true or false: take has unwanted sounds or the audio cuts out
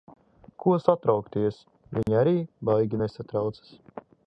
true